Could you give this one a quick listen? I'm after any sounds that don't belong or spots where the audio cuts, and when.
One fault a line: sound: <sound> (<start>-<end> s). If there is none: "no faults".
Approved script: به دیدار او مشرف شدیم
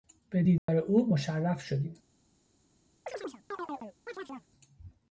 sound: dropout (0.6-0.7 s)
sound: chirp (3.1-4.5 s)